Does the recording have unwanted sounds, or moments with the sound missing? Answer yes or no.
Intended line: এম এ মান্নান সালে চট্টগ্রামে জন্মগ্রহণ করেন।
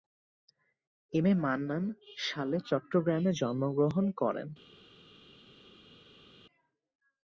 no